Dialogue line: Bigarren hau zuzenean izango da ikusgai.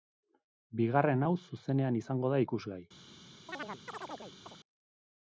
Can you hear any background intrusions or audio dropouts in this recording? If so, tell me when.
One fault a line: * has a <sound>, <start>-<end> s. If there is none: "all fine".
* has a chirp, 3.5-4.6 s